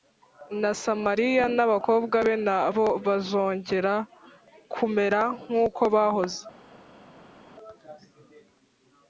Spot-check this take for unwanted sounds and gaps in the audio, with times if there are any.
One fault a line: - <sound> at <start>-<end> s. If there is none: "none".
none